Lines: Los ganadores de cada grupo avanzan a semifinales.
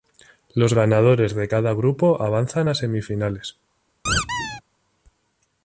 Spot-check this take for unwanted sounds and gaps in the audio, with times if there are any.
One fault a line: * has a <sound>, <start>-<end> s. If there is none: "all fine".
* has a squeak, 4.1-4.6 s